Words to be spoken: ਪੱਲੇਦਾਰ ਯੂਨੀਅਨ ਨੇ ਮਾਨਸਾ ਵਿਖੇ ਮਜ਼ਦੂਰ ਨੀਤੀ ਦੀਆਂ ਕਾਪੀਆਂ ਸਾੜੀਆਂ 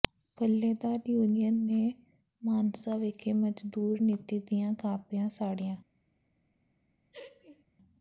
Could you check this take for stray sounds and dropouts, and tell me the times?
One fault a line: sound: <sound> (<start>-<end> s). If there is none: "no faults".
sound: laugh (7.1-7.6 s)